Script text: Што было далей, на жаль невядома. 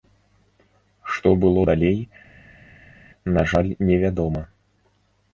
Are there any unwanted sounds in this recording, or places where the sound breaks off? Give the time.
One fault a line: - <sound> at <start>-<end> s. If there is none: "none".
none